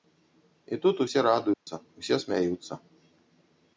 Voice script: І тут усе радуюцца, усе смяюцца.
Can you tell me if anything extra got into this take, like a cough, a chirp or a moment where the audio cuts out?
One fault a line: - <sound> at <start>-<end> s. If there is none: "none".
- dropout at 1.5-1.7 s